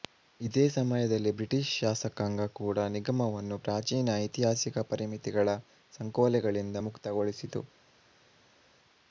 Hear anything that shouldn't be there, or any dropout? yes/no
no